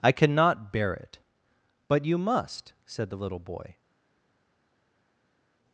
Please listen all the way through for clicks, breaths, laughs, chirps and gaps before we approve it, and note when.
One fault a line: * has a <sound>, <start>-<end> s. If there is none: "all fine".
all fine